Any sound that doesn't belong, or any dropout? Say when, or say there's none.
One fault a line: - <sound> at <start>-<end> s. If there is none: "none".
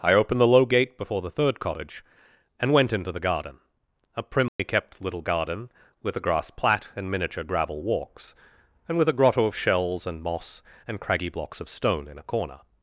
- dropout at 4.5-4.6 s